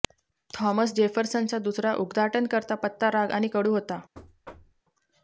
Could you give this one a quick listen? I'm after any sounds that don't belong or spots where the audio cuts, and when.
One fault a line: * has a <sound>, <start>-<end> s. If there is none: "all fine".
* has a thud, 4.1-4.8 s